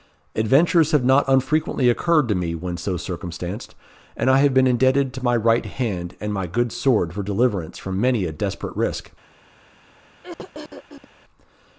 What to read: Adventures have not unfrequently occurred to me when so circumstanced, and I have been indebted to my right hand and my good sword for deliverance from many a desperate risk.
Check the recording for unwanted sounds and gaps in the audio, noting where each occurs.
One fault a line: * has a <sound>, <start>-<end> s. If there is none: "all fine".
* has a throat clearing, 10.2-11.1 s